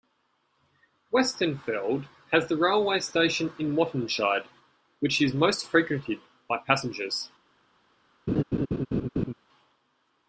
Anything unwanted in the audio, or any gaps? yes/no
yes